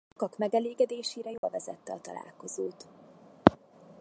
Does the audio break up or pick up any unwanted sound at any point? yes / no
yes